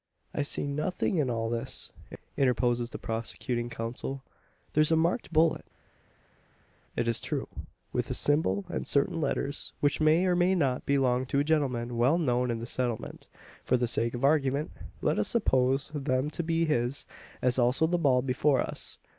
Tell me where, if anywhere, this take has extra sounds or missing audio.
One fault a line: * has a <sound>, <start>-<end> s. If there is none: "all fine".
all fine